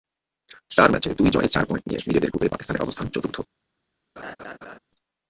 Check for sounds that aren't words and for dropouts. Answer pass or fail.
fail